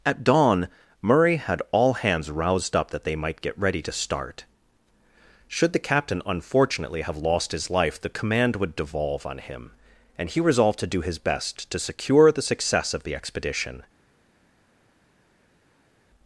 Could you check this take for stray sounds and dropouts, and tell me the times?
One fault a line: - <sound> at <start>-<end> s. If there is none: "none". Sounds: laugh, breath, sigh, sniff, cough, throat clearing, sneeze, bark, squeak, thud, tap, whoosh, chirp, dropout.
none